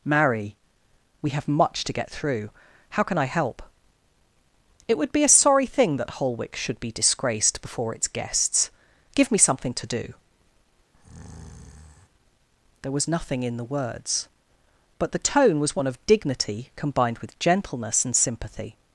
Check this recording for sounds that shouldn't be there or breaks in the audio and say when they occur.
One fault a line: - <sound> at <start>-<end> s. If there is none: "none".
- breath at 10.9-12.1 s